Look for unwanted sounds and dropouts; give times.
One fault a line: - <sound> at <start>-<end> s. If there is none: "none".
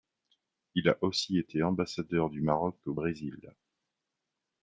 none